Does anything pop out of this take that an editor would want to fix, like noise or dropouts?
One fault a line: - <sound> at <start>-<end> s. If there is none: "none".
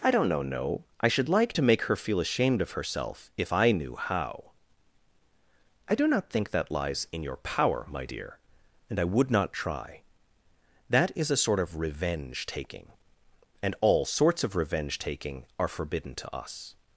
none